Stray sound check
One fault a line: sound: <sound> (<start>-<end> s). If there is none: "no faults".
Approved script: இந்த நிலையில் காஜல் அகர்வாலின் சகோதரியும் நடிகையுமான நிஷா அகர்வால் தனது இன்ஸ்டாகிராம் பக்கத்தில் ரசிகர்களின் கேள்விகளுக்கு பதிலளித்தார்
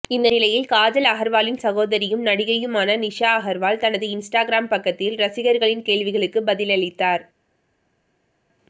no faults